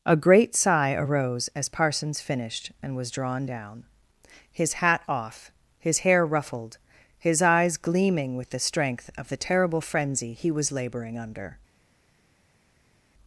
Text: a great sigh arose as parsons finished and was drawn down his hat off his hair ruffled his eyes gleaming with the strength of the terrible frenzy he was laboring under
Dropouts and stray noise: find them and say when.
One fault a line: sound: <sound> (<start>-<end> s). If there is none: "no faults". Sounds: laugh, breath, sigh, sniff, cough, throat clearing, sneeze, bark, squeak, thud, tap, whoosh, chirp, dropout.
no faults